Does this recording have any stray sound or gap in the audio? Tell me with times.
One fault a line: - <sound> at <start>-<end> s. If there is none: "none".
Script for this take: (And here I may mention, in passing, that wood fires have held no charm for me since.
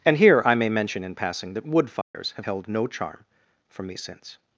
- dropout at 2.0-2.1 s